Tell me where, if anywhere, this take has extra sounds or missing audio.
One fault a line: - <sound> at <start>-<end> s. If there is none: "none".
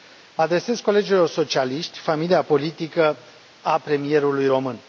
none